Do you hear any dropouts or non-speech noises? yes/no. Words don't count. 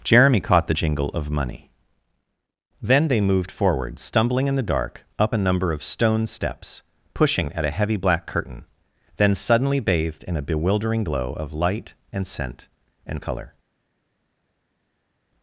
no